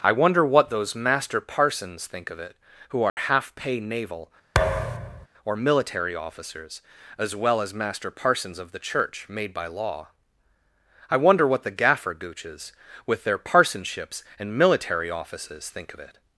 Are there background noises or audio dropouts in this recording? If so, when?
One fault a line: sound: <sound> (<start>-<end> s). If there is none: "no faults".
sound: dropout (3.1-3.2 s)
sound: thud (4.5-5.3 s)